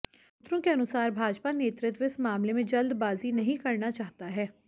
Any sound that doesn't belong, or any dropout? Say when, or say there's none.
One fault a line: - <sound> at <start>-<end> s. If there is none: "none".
none